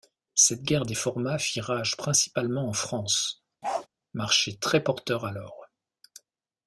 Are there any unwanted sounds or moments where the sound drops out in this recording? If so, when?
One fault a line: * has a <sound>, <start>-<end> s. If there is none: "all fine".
* has a bark, 3.6-3.9 s